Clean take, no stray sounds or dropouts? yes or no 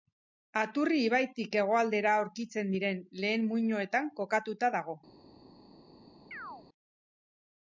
no